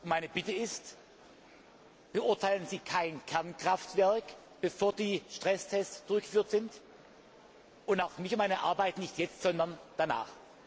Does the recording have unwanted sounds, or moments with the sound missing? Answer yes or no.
no